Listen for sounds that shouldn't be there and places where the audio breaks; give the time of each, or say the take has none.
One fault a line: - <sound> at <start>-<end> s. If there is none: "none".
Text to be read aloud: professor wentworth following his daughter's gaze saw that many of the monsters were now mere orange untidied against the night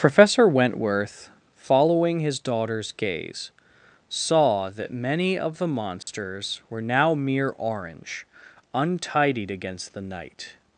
- dropout at 6.0-6.1 s